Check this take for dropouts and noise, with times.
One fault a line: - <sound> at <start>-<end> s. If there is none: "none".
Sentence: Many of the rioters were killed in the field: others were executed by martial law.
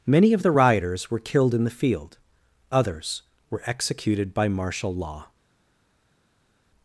none